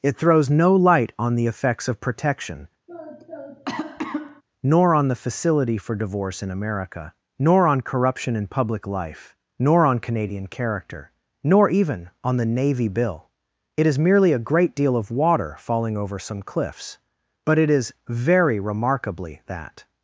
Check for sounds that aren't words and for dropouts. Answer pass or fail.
fail